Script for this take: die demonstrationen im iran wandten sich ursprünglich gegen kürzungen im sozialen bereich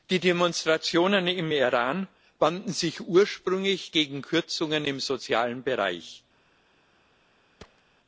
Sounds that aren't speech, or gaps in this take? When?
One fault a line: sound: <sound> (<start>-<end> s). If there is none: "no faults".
sound: thud (7.6-7.8 s)